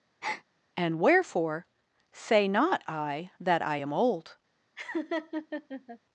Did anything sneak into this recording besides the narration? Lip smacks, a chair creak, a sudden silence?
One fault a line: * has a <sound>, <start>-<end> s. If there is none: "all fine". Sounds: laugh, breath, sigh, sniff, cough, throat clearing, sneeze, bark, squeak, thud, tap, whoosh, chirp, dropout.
* has a breath, 0.2-0.4 s
* has a laugh, 4.8-6.0 s